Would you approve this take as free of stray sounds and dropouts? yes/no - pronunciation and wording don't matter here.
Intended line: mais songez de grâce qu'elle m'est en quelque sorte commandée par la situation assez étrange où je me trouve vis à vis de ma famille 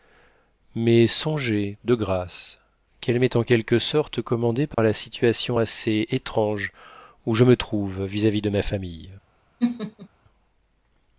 no